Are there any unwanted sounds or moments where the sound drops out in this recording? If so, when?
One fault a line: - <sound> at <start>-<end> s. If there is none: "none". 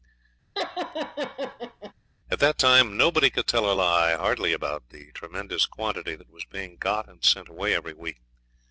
- laugh at 0.6-1.9 s